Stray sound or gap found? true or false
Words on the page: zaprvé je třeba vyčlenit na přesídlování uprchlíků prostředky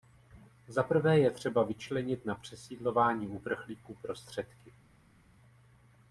false